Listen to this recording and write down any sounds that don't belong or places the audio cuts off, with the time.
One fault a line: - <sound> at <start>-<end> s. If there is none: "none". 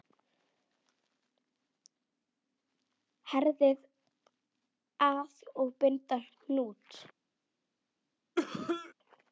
- cough at 8.4-8.9 s